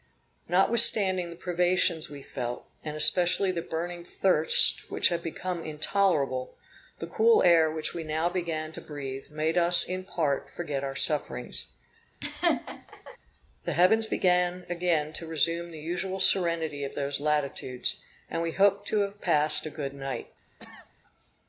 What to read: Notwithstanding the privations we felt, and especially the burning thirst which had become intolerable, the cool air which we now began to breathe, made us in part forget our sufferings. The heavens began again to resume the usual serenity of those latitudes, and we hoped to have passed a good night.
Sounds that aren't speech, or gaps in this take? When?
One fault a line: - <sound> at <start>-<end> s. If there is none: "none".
- laugh at 12.2-13.2 s
- cough at 20.6-20.9 s